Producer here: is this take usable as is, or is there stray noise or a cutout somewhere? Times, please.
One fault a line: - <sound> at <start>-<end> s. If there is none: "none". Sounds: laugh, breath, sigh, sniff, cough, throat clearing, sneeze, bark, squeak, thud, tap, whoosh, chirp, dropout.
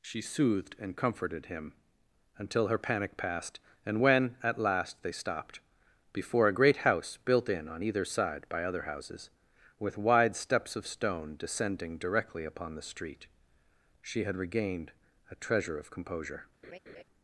- laugh at 16.6-17.0 s